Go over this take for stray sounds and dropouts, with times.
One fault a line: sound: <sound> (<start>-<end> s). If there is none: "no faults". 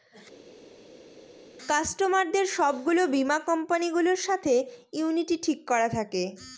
no faults